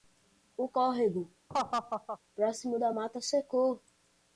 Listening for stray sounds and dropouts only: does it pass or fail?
fail